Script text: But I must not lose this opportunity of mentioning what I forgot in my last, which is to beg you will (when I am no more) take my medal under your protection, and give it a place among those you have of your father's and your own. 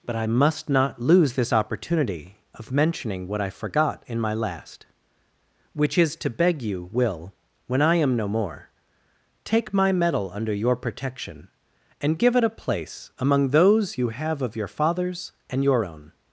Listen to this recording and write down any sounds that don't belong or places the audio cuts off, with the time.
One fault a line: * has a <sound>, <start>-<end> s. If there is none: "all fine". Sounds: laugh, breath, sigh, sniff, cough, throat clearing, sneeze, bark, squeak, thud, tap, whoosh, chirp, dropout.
all fine